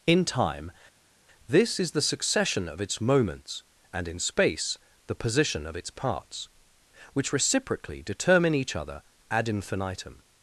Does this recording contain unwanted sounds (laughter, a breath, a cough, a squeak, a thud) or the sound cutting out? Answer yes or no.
no